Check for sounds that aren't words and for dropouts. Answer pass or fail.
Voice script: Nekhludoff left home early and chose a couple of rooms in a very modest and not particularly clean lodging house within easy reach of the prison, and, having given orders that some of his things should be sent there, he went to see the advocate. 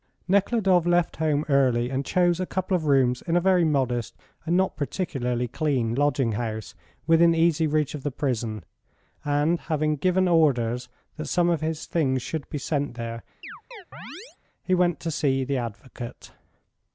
fail